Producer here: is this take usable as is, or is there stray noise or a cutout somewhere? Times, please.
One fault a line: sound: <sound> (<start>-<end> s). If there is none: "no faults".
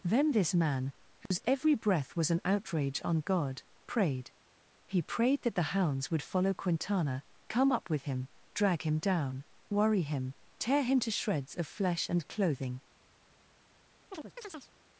sound: dropout (1.3-1.3 s)
sound: chirp (14.1-14.7 s)